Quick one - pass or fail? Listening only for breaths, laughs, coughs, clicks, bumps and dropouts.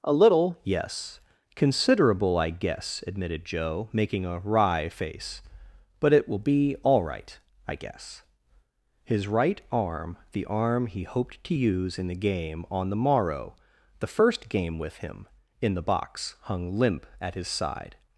pass